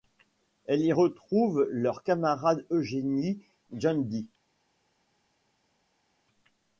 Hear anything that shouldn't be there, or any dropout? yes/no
no